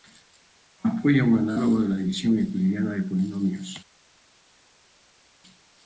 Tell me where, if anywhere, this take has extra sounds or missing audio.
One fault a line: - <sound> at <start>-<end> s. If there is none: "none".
none